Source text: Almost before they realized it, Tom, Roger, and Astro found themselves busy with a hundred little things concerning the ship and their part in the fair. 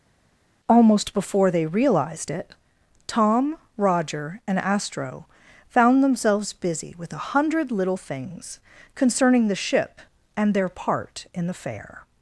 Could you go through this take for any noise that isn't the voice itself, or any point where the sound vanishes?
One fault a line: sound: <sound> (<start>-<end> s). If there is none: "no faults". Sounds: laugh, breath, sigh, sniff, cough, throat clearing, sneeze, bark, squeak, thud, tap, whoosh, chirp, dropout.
no faults